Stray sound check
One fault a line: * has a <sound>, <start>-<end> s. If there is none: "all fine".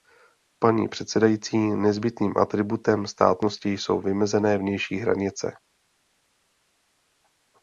all fine